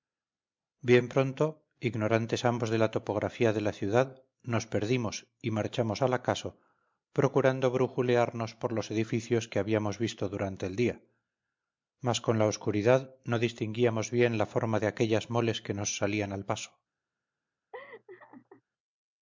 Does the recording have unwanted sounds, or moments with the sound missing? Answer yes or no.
yes